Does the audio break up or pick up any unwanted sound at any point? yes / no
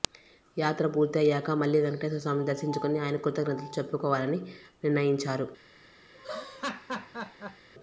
yes